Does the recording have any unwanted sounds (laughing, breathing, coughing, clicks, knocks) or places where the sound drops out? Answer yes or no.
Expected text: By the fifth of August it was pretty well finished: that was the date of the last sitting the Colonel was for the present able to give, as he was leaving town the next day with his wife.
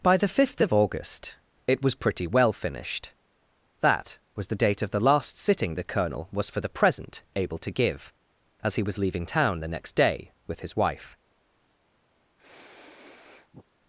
yes